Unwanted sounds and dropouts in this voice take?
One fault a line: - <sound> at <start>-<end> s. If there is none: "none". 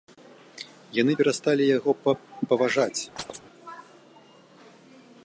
- chirp at 3.2-3.4 s